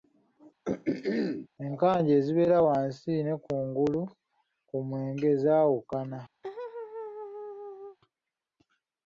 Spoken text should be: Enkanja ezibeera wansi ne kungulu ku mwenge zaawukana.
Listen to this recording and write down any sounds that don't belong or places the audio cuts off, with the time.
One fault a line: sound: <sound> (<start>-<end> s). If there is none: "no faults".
sound: throat clearing (0.6-1.5 s)
sound: laugh (6.4-8.0 s)